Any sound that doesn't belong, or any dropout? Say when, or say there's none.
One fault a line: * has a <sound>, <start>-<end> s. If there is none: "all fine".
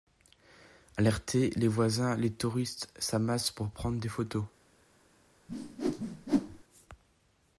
* has a whoosh, 5.5-6.6 s